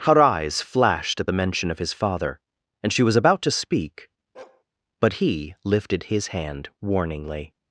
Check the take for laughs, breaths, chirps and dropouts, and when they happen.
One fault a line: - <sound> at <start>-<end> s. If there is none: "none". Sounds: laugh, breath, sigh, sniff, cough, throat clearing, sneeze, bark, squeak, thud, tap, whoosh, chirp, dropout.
- bark at 4.3-4.6 s